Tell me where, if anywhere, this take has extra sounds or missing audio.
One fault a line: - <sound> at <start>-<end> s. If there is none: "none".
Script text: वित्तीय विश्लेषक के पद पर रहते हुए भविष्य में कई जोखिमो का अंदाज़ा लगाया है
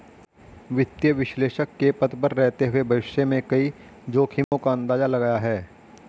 - dropout at 4.4-4.5 s